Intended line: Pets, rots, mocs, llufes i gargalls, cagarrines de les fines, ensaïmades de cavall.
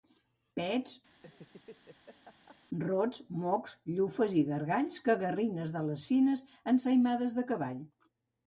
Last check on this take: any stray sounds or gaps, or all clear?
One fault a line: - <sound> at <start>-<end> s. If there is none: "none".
- laugh at 1.1-2.6 s